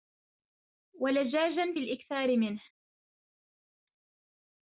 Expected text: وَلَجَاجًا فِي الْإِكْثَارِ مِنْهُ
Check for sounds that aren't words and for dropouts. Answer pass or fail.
pass